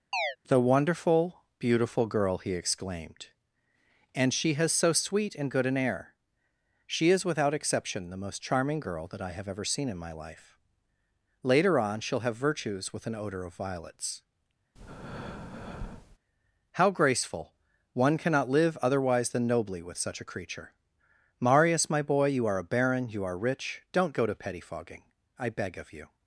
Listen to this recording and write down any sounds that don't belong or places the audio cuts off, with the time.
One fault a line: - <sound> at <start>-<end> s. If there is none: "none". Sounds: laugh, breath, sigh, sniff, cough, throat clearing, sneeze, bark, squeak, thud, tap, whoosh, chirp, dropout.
- chirp at 0.1-0.4 s
- breath at 14.8-16.2 s